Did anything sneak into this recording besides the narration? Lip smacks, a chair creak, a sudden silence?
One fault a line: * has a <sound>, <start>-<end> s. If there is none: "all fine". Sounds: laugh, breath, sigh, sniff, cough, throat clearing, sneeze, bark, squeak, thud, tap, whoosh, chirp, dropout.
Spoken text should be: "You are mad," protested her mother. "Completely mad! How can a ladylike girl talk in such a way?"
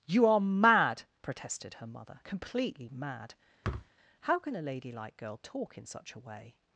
* has a thud, 3.6-3.9 s